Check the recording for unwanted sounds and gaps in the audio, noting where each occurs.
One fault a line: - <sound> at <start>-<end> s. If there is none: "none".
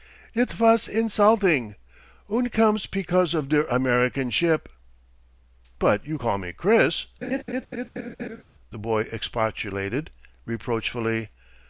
- laugh at 7.2-8.4 s